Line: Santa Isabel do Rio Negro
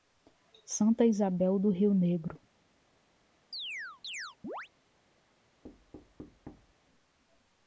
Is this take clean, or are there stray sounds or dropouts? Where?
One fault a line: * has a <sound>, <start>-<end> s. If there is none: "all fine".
* has a chirp, 3.5-4.7 s
* has a thud, 5.6-6.7 s